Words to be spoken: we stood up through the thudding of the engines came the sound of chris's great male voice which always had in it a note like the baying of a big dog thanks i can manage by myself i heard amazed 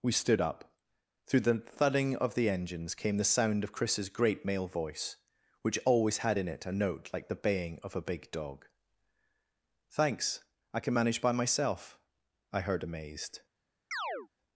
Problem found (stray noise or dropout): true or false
true